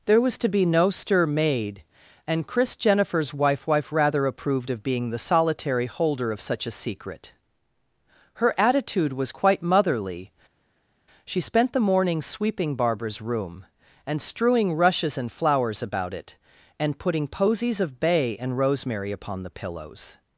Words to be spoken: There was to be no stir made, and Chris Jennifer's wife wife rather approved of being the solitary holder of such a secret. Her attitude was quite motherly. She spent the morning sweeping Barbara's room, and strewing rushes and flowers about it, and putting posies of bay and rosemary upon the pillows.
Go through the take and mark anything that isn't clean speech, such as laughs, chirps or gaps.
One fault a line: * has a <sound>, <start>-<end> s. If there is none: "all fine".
all fine